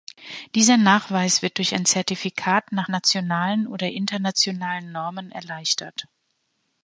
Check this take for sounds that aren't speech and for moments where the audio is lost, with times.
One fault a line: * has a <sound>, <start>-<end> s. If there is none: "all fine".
all fine